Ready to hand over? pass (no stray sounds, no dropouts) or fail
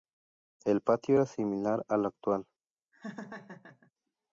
fail